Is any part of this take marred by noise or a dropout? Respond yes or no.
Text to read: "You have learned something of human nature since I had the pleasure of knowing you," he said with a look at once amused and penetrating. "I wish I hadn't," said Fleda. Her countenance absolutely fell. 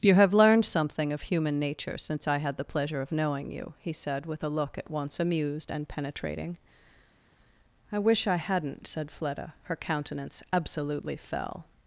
no